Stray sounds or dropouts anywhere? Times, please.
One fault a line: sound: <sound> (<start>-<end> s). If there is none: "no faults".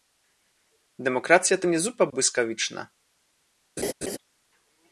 sound: laugh (3.8-4.2 s)